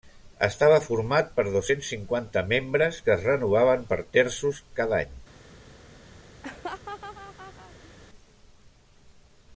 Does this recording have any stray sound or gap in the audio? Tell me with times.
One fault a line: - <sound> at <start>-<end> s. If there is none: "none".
- laugh at 6.4-7.9 s